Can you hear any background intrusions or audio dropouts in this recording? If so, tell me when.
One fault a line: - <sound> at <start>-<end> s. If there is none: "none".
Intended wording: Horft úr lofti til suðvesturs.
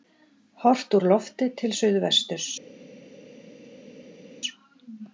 none